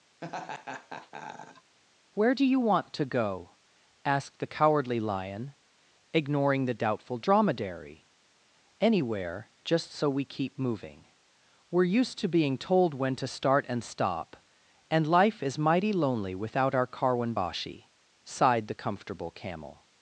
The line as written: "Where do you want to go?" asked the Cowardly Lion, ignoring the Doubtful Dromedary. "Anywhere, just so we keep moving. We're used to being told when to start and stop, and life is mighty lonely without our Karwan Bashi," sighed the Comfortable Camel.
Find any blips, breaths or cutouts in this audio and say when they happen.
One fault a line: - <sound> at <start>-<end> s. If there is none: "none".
- laugh at 0.2-1.8 s